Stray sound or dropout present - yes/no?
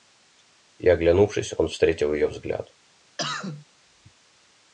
yes